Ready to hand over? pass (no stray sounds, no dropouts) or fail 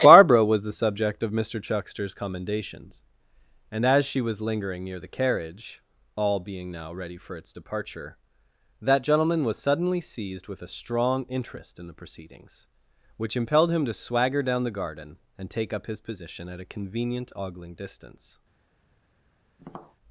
fail